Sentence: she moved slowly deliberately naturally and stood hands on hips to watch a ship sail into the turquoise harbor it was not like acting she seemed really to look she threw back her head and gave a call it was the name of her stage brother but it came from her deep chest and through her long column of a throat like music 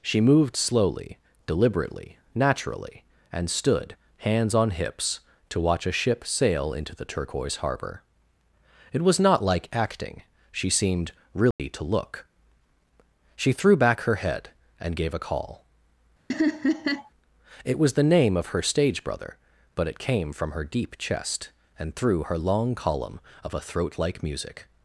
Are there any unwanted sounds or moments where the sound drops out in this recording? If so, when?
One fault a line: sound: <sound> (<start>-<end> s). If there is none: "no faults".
sound: dropout (11.5-11.6 s)
sound: laugh (16.3-17.1 s)